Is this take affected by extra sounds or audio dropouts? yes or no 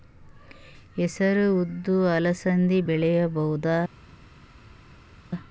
no